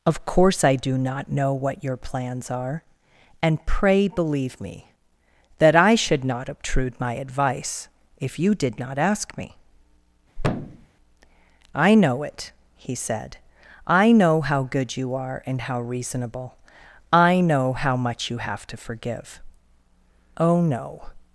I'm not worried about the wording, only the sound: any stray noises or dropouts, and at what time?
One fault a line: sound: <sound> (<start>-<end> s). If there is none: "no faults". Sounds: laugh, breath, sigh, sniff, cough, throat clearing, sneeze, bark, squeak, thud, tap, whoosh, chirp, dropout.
sound: thud (10.4-10.9 s)